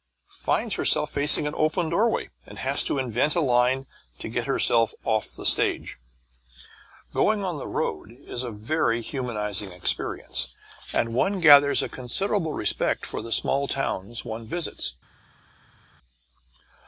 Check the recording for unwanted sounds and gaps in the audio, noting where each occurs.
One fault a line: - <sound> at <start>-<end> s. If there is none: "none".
none